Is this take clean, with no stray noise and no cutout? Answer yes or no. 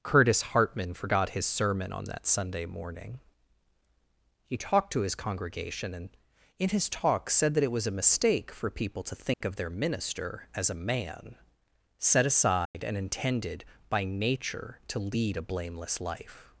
no